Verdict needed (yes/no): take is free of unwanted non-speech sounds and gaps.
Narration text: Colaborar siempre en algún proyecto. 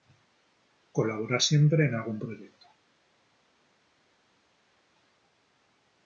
yes